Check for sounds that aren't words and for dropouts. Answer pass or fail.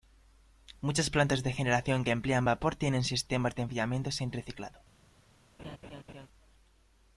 fail